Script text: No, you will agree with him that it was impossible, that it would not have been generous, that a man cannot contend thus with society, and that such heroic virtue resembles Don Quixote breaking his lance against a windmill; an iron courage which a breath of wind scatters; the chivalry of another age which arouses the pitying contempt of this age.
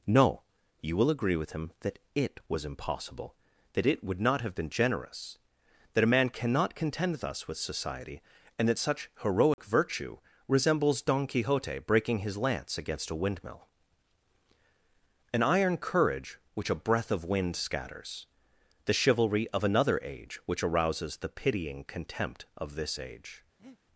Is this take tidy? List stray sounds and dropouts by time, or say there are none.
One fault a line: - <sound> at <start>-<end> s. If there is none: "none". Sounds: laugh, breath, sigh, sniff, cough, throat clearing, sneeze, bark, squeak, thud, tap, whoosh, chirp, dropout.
- dropout at 9.5-9.6 s
- breath at 23.6-23.8 s